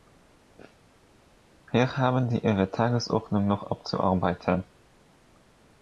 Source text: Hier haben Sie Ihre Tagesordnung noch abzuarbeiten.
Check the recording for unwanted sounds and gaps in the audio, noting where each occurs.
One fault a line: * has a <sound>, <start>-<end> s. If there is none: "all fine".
all fine